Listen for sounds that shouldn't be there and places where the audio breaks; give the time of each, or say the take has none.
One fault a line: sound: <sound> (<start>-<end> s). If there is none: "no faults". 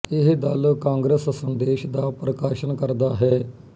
no faults